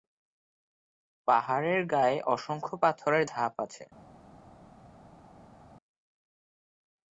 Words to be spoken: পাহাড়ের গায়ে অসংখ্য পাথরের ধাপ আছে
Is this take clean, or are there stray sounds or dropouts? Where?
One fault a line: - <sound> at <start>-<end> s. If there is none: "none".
none